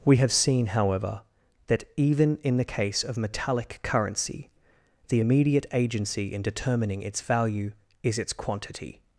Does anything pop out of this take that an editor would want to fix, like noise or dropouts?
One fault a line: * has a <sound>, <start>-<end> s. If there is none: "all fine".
all fine